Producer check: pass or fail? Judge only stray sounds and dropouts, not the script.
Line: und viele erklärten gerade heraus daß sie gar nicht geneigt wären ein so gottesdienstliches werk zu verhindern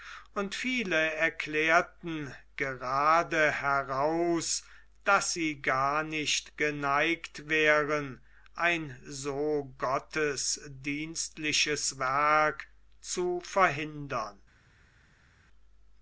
pass